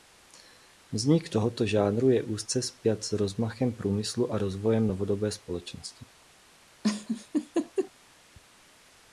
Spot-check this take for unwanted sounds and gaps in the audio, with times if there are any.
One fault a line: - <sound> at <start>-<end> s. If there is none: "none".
- laugh at 6.8-7.9 s